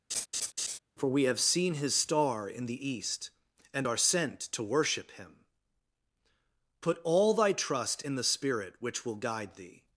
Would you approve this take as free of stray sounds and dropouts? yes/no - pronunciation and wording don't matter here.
no